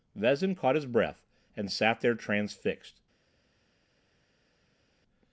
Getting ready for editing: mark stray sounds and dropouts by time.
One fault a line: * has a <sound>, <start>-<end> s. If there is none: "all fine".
all fine